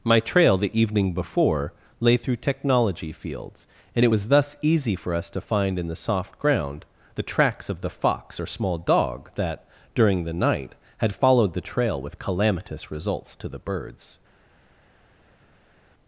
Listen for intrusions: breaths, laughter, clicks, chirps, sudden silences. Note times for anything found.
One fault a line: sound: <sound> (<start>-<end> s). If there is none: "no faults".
no faults